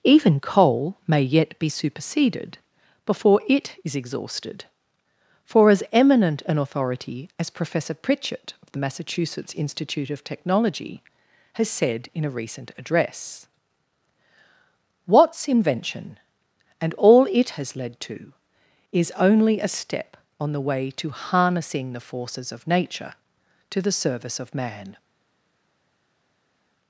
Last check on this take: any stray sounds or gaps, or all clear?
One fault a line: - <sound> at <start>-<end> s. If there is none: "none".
none